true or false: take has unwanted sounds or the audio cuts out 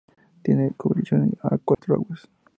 true